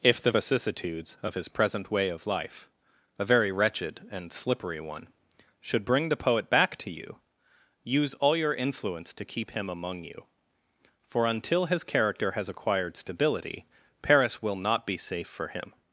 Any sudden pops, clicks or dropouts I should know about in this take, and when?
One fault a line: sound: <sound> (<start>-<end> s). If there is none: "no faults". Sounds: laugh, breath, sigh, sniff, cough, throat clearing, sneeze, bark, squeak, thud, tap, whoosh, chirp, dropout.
no faults